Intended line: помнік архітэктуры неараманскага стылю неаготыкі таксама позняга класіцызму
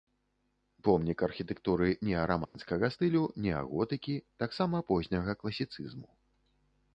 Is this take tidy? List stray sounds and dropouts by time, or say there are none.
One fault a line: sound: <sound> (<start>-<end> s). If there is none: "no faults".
sound: dropout (2.4-2.5 s)